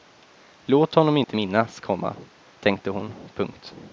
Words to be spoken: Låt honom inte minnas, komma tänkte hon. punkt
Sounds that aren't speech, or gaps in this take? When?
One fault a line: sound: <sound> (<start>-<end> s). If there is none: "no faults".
sound: dropout (1.2-1.3 s)